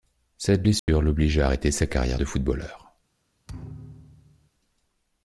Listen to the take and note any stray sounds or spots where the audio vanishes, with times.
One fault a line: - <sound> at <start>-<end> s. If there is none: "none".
- dropout at 0.8-0.9 s
- thud at 3.5-4.5 s